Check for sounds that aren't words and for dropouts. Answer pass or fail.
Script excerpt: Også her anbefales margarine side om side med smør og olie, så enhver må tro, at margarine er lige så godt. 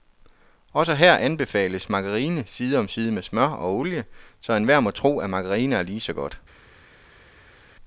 pass